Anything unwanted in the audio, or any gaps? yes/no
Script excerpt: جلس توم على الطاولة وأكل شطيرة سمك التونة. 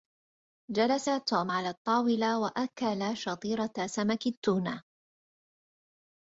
no